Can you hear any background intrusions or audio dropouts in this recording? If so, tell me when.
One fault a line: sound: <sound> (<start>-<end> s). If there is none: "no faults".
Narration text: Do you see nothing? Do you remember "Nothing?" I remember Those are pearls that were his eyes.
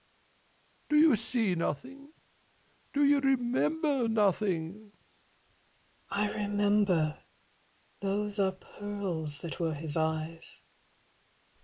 no faults